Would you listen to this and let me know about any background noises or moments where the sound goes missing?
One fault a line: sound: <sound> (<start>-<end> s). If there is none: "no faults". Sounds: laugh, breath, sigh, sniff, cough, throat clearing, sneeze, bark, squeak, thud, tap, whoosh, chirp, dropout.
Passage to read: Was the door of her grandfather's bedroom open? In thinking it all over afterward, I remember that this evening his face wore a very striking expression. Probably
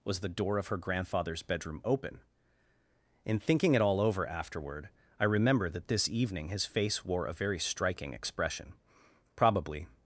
no faults